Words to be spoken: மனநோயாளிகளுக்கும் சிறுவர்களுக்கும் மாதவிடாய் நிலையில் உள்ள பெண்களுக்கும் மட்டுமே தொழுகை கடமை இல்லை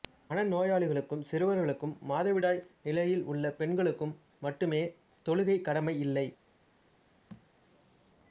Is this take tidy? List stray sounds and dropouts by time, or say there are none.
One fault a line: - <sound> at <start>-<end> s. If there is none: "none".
- thud at 7.3-7.5 s